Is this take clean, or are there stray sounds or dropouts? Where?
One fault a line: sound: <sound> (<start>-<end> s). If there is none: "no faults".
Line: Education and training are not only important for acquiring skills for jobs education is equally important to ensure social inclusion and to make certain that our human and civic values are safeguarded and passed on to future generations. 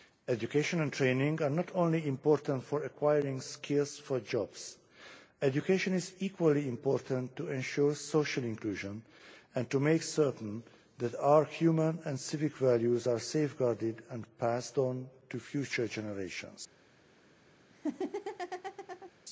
sound: laugh (17.7-19.1 s)